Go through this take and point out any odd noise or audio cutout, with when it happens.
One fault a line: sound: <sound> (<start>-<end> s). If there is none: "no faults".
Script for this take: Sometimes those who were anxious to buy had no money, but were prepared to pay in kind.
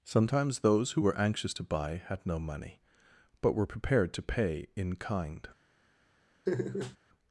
sound: laugh (6.5-7.0 s)